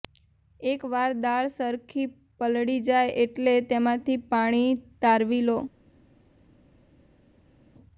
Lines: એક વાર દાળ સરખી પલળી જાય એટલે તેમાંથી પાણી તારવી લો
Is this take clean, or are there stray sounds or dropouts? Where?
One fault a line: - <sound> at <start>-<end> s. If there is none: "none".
none